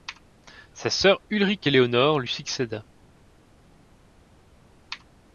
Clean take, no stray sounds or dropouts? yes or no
yes